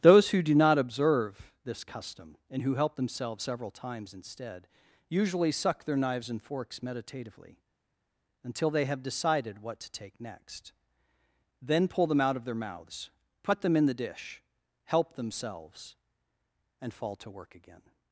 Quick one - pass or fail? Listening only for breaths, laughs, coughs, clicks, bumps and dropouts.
pass